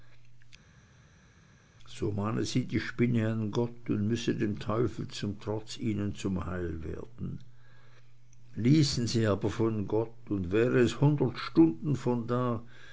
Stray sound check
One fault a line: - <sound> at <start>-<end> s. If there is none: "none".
none